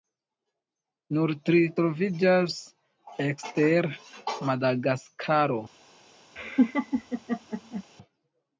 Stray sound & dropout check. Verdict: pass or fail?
fail